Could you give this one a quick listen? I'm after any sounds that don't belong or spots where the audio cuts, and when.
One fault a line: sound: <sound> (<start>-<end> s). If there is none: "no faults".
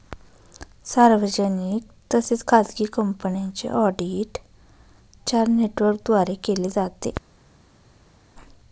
no faults